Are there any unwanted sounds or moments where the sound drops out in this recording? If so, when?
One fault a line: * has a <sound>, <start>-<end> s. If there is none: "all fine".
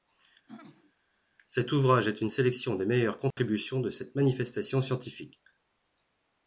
* has a throat clearing, 0.5-0.9 s
* has a dropout, 3.3-3.4 s